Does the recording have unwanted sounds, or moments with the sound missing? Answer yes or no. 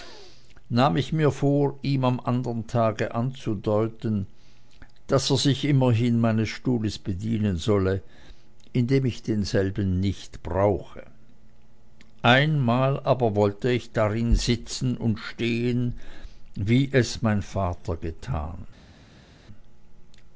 no